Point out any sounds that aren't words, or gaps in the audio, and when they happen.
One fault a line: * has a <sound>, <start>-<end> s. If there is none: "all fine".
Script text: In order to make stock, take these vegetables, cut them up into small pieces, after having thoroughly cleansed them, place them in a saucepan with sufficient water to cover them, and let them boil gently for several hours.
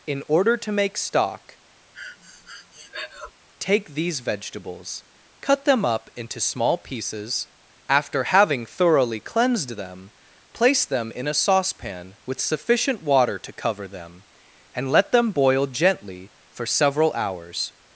* has a breath, 1.9-3.3 s